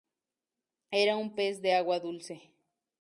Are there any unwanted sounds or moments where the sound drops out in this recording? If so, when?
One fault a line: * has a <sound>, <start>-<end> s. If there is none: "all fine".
all fine